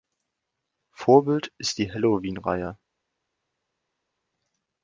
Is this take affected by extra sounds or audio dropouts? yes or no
no